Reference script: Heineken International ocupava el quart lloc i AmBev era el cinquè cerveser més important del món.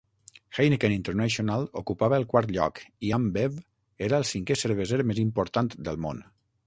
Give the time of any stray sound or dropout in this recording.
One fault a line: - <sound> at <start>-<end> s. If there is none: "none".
none